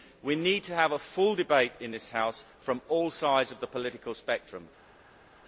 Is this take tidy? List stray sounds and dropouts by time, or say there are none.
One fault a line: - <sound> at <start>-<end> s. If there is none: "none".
none